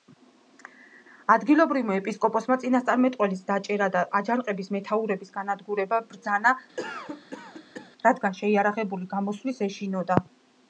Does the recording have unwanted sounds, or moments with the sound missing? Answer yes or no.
yes